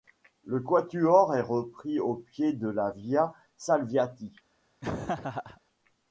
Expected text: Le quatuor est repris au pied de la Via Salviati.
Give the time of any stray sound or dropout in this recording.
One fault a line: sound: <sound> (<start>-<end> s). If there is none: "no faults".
sound: laugh (4.8-5.6 s)